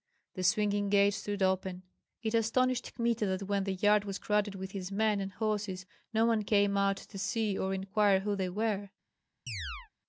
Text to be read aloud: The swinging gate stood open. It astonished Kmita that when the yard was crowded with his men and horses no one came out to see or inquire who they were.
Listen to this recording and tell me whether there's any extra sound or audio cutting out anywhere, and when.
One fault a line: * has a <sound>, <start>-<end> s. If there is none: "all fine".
* has a chirp, 9.5-9.9 s